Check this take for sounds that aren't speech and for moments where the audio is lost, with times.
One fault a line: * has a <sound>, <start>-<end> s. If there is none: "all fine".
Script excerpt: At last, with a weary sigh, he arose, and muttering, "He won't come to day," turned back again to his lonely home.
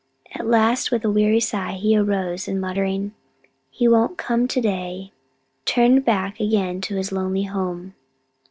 all fine